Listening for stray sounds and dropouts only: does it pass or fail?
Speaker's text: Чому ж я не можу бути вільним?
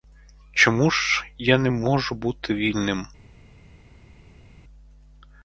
pass